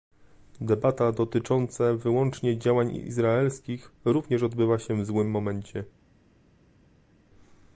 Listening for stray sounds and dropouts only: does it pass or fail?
pass